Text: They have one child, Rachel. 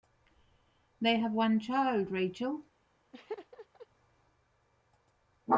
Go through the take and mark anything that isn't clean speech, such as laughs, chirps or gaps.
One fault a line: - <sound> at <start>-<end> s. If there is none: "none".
- laugh at 3.1-3.9 s